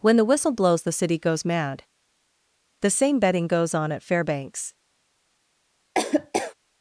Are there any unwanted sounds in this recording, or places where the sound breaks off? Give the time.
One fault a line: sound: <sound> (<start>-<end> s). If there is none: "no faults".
sound: laugh (5.9-6.5 s)